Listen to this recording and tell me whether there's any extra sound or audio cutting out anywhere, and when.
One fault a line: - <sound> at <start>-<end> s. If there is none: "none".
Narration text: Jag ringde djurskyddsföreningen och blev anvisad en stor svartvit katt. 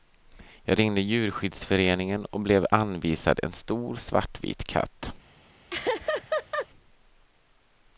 - laugh at 5.7-6.7 s